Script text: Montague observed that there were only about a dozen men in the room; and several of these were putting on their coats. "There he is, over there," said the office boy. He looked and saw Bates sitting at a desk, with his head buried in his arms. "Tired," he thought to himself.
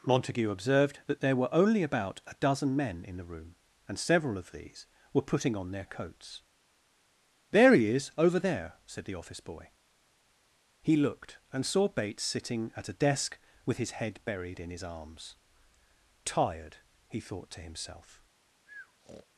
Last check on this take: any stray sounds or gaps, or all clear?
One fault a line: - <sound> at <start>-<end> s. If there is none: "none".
- breath at 18.7-19.3 s